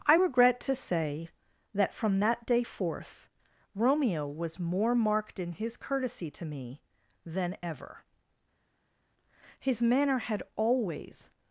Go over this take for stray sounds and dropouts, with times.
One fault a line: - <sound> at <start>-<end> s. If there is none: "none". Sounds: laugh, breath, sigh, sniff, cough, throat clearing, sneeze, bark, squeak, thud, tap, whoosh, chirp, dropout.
none